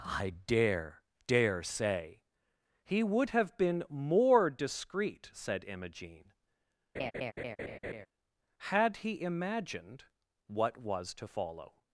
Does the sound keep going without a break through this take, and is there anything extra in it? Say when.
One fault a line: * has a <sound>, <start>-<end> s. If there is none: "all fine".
* has a laugh, 6.9-8.1 s